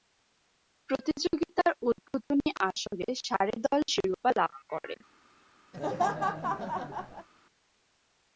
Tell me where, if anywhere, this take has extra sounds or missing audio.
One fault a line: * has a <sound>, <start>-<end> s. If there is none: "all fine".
* has a laugh, 5.7-7.3 s